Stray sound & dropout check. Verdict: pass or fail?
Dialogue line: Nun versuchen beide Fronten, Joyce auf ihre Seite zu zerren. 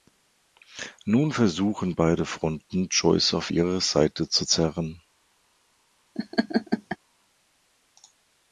fail